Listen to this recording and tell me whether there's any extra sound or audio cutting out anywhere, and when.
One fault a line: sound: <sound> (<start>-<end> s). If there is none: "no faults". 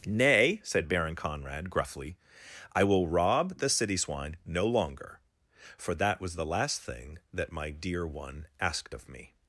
no faults